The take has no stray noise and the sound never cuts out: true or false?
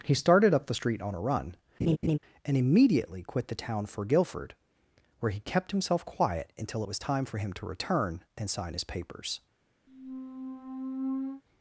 false